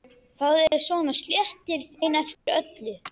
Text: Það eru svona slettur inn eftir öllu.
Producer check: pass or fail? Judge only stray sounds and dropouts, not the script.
fail